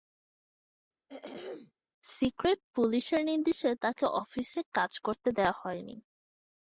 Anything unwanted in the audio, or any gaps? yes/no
yes